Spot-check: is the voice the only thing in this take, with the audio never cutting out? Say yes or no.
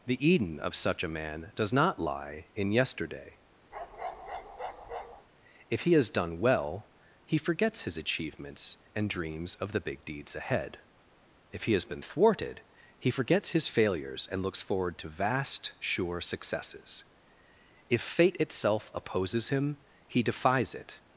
no